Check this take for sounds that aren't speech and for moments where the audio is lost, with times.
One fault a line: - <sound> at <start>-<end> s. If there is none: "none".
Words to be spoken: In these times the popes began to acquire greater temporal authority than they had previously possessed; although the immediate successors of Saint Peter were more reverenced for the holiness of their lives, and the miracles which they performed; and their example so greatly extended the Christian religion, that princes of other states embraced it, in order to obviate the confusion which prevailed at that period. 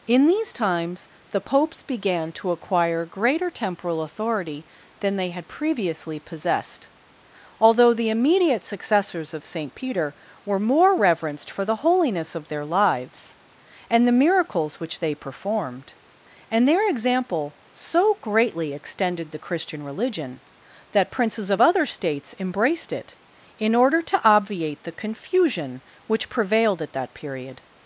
none